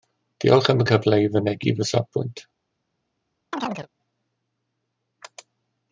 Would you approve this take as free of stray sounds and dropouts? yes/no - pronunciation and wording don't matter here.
no